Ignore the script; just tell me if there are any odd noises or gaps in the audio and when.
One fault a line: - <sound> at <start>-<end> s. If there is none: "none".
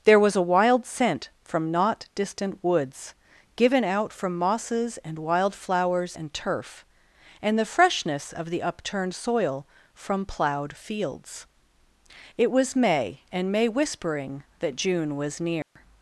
- dropout at 15.6-15.8 s